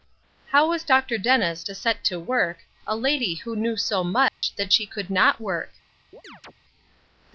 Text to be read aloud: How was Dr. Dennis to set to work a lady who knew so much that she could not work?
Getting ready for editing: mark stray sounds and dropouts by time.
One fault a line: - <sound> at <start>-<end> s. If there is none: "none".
- dropout at 4.3-4.4 s
- chirp at 6.1-6.5 s